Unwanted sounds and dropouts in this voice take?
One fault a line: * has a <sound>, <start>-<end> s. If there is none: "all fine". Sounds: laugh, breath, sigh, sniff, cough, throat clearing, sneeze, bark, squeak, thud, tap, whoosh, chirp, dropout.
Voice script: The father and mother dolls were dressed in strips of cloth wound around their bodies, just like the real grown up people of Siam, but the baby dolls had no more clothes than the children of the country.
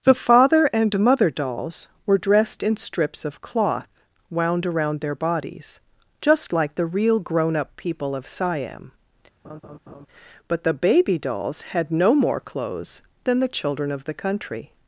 * has a laugh, 9.4-10.1 s